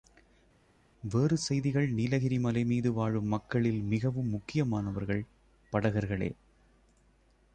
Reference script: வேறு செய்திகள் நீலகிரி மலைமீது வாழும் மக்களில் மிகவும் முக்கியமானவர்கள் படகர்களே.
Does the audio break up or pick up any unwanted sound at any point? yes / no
no